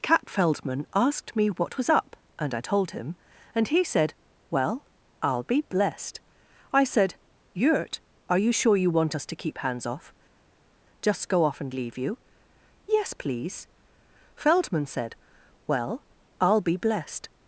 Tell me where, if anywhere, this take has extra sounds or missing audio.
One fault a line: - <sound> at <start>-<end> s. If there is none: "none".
none